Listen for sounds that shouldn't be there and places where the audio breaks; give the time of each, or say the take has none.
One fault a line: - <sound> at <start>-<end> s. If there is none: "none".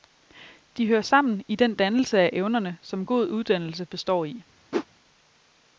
- whoosh at 4.7-4.9 s